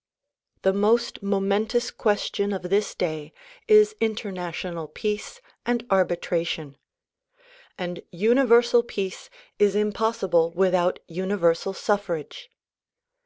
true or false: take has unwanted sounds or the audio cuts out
false